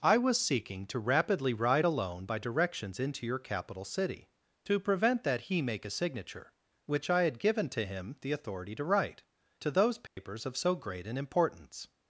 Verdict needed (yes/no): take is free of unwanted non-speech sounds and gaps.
no